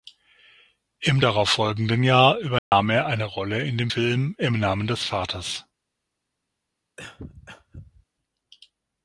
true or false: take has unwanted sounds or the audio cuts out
true